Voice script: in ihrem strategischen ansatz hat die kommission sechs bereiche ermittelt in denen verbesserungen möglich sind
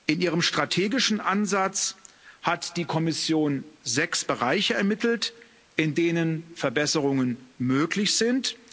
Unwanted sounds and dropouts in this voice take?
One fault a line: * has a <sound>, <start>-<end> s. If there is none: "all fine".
all fine